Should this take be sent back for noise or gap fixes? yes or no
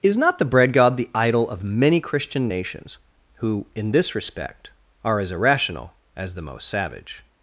no